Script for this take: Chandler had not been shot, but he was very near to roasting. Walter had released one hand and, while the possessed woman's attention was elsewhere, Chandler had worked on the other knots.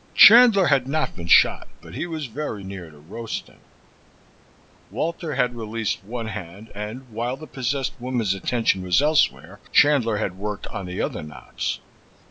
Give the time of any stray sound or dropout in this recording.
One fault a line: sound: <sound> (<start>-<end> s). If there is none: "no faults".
no faults